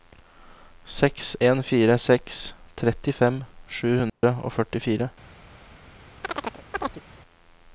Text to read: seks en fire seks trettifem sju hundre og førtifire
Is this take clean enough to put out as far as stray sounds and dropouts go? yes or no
no